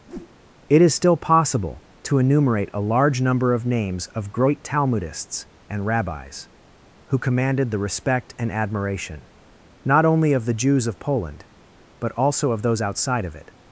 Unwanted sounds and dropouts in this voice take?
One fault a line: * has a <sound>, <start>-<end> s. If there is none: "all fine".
* has a whoosh, 0.1-0.3 s